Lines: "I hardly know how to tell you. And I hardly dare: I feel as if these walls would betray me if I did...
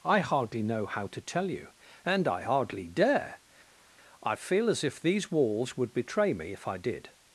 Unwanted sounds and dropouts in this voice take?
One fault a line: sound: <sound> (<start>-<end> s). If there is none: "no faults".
no faults